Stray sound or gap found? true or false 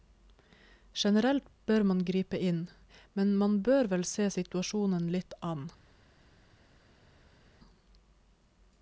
false